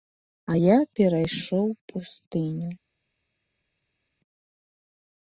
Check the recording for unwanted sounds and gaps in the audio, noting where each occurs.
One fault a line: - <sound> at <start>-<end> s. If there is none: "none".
none